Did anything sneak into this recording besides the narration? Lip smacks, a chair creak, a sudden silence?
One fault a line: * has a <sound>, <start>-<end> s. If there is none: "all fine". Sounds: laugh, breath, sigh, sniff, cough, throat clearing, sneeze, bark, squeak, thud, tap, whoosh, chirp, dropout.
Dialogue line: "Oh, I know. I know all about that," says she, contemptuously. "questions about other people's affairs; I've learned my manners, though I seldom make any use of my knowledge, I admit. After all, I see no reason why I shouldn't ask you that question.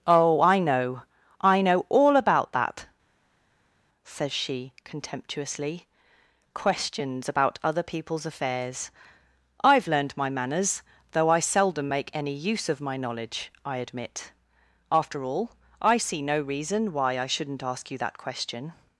all fine